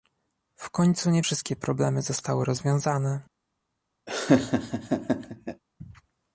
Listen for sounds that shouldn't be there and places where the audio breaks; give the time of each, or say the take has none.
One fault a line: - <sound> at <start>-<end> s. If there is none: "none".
- laugh at 4.1-5.6 s